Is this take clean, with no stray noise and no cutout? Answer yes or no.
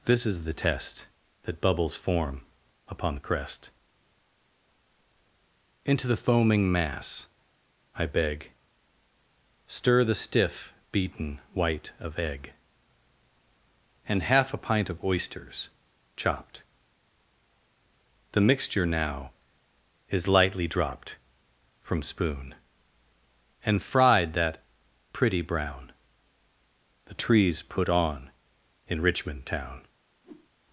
no